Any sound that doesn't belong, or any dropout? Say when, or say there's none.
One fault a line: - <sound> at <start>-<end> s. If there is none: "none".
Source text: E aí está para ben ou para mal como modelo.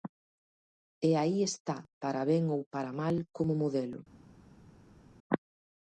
none